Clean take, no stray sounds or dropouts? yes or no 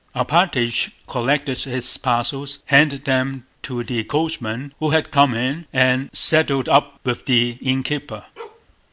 no